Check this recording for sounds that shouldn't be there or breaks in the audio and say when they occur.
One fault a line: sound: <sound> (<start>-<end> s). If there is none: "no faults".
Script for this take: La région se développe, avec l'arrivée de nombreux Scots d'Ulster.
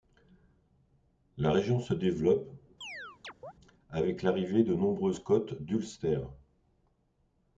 sound: chirp (2.8-3.5 s)